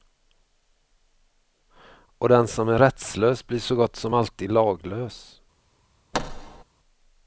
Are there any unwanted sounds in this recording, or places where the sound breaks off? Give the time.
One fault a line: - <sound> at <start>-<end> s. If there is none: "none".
- thud at 6.1-6.6 s